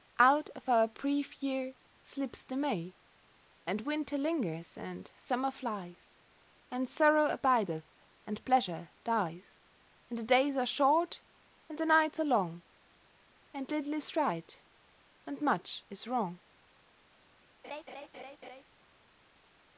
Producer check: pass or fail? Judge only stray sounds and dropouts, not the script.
fail